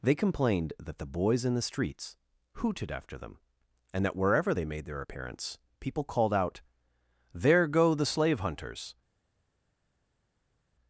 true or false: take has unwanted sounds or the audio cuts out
false